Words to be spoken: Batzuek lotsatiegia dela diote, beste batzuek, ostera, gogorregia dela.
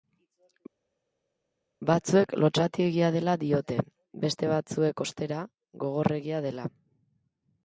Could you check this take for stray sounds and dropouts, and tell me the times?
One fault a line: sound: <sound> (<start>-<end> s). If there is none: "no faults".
no faults